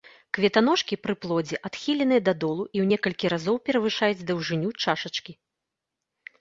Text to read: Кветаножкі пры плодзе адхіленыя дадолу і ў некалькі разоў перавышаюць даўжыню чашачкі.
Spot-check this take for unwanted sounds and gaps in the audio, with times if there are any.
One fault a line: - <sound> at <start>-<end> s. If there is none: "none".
none